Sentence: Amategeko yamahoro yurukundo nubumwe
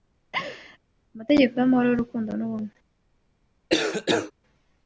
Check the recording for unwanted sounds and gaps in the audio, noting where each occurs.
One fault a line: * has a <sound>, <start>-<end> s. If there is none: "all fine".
* has a laugh, 0.3-0.8 s
* has a cough, 3.7-4.3 s